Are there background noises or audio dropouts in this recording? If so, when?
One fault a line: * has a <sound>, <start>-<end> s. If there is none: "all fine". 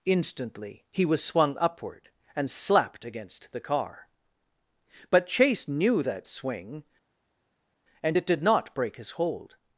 all fine